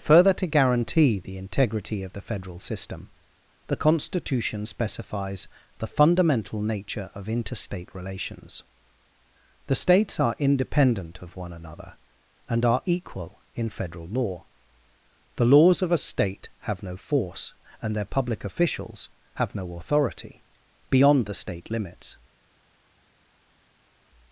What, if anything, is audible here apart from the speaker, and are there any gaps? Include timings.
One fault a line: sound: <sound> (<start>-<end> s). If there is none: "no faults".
no faults